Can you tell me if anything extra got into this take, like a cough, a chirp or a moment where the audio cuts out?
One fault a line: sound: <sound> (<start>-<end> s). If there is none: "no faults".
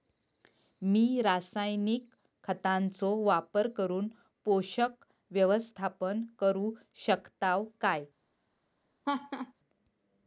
sound: laugh (9.0-9.5 s)